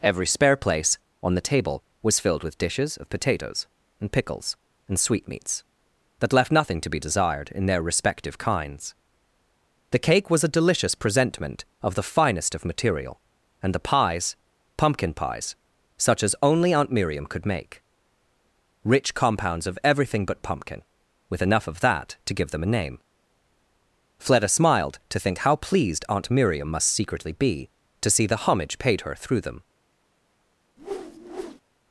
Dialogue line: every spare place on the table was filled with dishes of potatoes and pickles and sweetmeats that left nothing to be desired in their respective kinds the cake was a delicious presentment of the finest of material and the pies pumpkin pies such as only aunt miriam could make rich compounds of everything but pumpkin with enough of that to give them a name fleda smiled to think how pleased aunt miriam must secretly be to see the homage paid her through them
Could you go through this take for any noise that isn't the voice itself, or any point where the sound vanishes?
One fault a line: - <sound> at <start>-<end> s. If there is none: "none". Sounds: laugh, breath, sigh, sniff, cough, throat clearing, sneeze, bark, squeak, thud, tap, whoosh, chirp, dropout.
- whoosh at 30.8-31.6 s